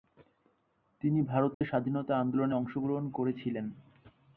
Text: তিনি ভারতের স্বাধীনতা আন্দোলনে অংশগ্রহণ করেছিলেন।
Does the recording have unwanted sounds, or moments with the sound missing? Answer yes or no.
yes